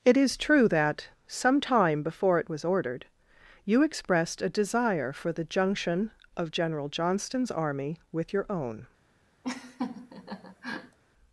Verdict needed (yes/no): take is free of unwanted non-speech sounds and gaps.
no